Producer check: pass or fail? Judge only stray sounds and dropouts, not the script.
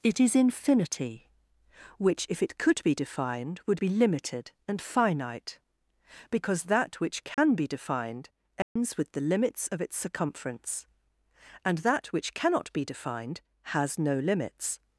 fail